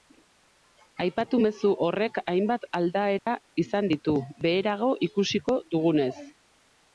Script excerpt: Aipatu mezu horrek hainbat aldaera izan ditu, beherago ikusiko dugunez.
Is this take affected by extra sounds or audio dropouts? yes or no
yes